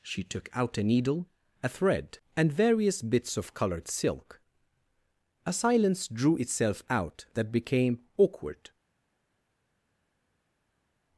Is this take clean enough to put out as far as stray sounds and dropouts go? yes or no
yes